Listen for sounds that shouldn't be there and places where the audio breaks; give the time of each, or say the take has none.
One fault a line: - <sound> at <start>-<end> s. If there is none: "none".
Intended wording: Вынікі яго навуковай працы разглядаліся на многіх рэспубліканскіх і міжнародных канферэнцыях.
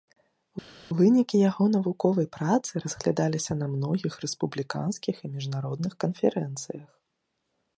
none